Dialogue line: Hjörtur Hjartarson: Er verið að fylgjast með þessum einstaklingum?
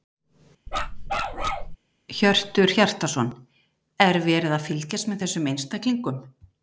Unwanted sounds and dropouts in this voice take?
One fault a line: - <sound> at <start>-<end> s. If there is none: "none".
- bark at 0.7-1.8 s